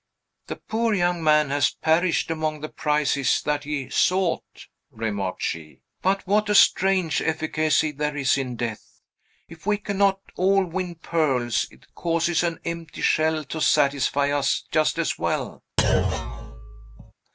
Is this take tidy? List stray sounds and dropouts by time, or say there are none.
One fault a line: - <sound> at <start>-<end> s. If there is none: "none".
- thud at 15.8-17.1 s